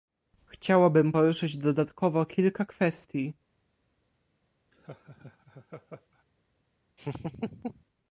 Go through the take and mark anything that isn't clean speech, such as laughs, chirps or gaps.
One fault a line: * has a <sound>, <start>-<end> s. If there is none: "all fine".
* has a laugh, 4.7-6.2 s
* has a laugh, 7.0-7.8 s